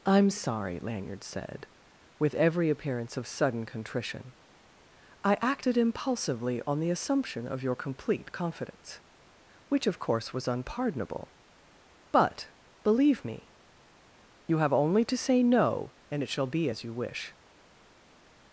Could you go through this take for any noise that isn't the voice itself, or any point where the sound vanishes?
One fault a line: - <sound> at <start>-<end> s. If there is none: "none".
none